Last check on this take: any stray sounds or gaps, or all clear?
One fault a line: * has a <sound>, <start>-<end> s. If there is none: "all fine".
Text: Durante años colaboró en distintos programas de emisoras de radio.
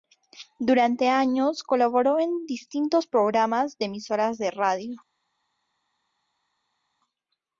all fine